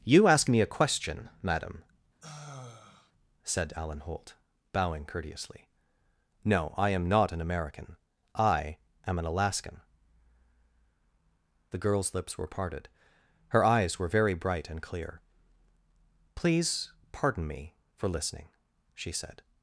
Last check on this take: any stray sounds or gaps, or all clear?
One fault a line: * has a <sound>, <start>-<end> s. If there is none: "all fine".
* has a sigh, 2.2-3.1 s